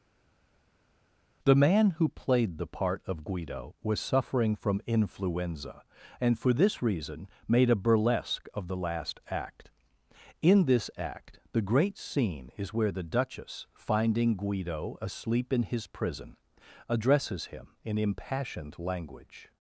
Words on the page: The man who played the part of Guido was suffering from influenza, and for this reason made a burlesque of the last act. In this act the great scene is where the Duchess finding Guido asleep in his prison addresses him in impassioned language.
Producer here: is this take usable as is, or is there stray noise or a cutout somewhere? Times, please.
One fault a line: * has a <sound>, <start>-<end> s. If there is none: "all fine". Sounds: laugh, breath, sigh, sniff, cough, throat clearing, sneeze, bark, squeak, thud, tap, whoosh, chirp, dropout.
all fine